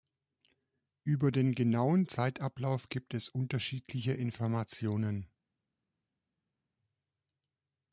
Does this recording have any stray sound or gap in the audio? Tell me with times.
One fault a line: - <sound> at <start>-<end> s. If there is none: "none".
none